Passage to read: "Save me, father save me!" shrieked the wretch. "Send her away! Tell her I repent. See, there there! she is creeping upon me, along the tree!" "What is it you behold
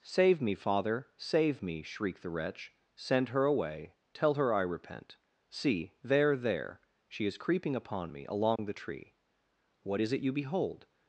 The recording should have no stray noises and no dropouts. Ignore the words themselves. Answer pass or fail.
fail